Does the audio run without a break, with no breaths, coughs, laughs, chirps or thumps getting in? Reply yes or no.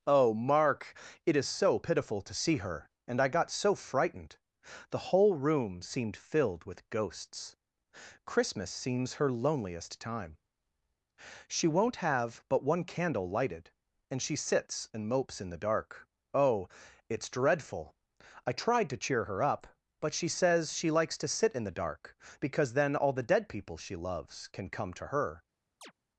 no